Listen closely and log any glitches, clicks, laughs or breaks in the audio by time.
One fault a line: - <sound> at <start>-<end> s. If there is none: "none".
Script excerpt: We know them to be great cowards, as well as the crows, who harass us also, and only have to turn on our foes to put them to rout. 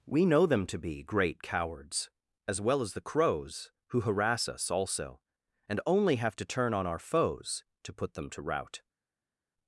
none